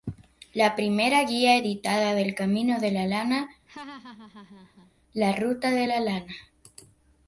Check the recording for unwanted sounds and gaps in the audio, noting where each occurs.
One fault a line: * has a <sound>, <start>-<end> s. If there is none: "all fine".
* has a laugh, 3.7-4.9 s